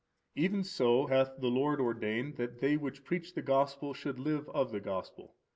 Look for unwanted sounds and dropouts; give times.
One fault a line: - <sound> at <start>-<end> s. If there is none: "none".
none